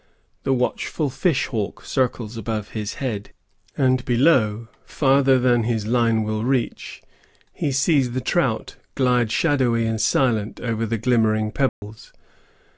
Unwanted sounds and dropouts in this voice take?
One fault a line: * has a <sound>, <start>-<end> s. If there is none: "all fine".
* has a dropout, 11.7-11.8 s